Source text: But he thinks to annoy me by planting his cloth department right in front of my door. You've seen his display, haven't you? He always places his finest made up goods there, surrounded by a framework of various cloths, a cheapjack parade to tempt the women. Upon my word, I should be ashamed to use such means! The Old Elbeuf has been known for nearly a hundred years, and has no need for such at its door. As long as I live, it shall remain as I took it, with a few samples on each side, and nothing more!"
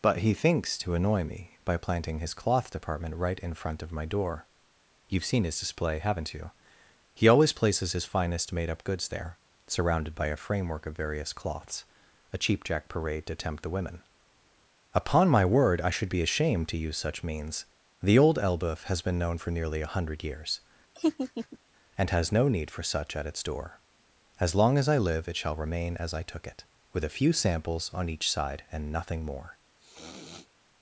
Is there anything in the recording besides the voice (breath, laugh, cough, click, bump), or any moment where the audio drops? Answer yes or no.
yes